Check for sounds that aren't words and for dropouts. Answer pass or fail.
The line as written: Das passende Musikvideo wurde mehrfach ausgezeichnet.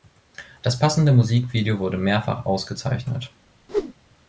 fail